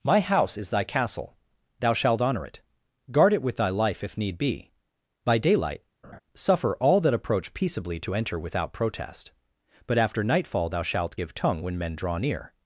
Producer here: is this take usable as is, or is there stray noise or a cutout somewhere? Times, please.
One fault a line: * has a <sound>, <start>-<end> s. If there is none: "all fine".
* has a laugh, 6.0-6.2 s